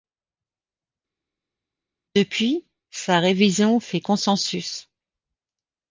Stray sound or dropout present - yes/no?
no